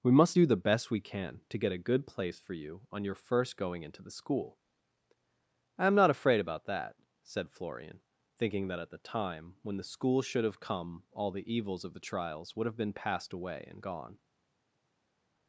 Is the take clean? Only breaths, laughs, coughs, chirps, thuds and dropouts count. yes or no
yes